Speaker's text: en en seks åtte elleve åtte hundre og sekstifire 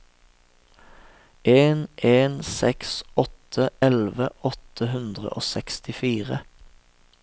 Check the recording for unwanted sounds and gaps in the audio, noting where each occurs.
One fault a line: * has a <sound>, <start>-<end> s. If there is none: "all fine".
all fine